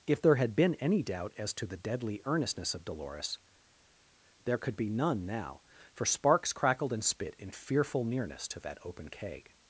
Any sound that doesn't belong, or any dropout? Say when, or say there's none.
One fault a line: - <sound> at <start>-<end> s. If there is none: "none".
none